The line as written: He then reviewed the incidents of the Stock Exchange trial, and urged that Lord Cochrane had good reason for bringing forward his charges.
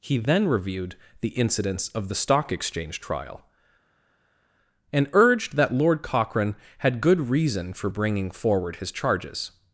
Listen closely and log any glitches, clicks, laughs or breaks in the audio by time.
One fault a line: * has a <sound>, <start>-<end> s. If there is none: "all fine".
all fine